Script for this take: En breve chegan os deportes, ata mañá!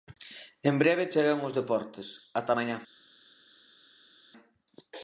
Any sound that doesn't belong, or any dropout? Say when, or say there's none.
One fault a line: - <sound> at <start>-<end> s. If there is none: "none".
none